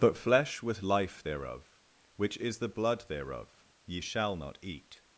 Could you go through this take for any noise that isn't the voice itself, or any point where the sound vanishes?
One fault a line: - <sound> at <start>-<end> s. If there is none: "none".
none